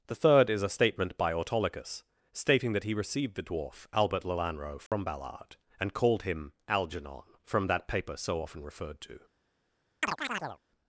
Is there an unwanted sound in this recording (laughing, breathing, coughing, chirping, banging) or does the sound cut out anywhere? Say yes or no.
yes